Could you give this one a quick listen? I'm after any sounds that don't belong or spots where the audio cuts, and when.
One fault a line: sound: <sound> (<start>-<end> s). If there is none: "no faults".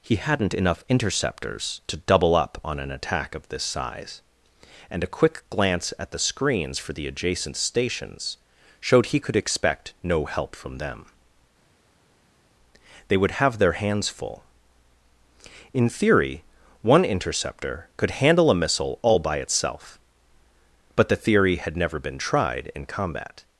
no faults